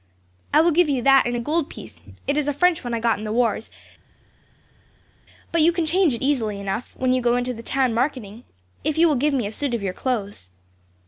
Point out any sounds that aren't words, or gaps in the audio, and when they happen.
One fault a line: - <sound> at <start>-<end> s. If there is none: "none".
none